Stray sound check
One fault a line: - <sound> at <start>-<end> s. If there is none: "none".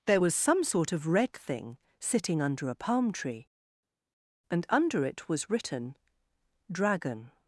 none